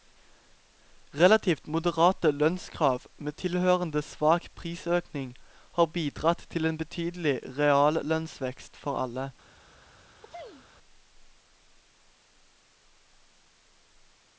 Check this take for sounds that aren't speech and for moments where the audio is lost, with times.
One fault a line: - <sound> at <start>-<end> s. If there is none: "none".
- sneeze at 10.2-10.7 s